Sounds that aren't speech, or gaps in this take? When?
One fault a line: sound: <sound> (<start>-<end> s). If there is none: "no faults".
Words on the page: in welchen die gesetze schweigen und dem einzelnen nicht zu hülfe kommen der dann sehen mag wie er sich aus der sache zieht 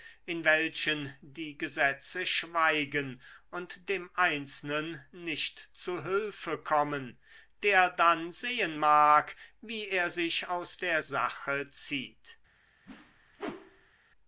sound: whoosh (12.9-13.9 s)